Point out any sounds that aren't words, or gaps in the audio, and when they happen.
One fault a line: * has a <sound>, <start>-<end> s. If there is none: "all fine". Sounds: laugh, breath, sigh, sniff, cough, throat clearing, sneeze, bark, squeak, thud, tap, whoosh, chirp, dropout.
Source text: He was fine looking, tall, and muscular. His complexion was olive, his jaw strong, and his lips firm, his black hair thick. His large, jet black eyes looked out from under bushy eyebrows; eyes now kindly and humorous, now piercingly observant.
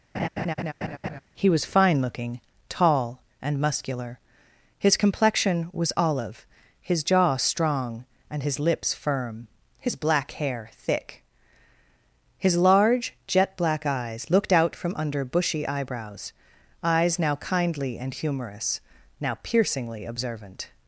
* has a laugh, 0.1-1.2 s